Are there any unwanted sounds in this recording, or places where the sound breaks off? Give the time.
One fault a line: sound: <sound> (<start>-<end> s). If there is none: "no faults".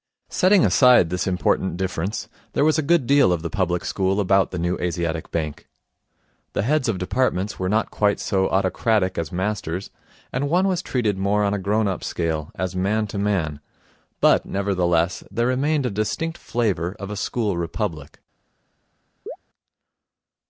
sound: chirp (19.3-19.4 s)